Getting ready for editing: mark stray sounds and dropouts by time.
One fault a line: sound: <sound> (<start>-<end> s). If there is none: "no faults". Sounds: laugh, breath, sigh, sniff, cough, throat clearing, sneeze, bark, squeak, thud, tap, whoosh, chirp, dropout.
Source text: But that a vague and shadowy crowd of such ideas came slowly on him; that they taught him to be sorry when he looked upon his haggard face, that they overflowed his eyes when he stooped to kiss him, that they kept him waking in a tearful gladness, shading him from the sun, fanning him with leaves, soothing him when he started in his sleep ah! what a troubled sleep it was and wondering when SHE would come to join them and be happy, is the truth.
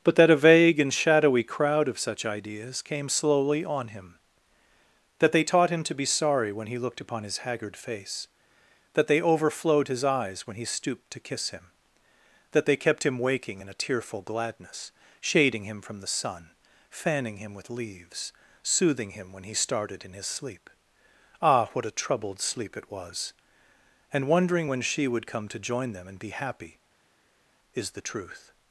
no faults